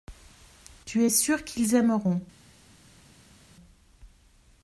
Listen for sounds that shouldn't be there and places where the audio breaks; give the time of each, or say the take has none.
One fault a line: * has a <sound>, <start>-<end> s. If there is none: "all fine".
all fine